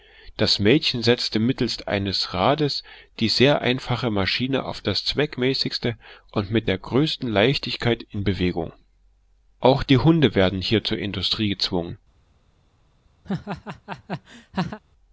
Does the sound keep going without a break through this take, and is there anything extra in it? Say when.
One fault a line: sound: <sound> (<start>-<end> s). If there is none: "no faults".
sound: laugh (13.2-14.8 s)